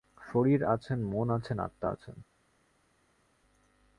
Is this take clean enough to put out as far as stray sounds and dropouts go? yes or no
yes